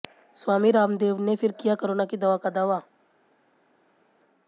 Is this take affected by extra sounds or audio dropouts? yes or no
no